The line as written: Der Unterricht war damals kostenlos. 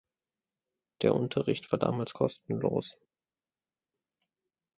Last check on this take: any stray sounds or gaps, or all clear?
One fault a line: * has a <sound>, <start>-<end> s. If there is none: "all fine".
all fine